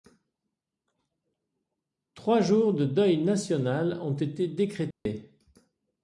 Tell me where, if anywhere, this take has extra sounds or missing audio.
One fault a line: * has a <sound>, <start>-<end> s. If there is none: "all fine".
* has a dropout, 4.9-5.1 s